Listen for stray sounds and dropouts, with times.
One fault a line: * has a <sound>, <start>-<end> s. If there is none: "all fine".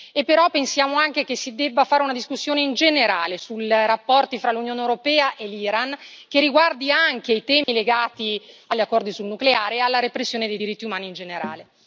* has a dropout, 7.6-7.7 s